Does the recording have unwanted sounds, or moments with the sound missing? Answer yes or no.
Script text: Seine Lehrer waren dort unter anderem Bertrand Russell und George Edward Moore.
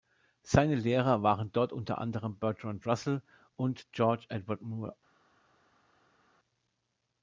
no